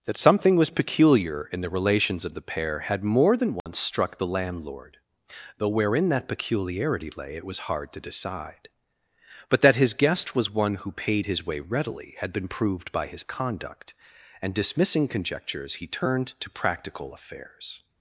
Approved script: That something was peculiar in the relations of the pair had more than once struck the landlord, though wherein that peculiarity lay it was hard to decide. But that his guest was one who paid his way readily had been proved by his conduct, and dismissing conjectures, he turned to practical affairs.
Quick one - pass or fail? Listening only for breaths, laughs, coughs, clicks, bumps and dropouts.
fail